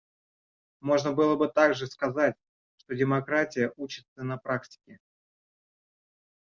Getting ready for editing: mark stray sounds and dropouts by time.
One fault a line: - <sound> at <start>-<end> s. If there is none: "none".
none